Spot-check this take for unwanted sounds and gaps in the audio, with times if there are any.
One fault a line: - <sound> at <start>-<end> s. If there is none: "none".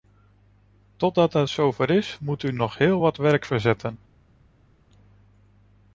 none